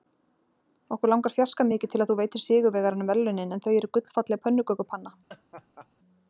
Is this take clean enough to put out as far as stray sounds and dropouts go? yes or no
no